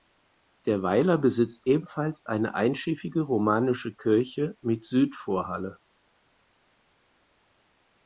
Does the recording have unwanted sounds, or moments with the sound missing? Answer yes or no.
no